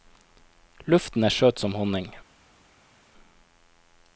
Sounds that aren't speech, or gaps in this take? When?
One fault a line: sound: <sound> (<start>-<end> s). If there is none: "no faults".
no faults